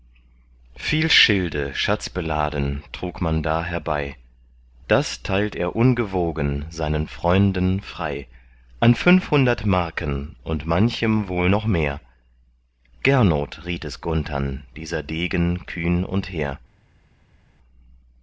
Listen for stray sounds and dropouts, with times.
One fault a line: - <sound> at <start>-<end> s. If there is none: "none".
none